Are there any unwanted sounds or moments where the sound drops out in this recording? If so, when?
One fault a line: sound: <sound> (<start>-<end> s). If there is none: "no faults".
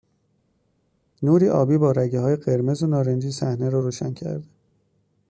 no faults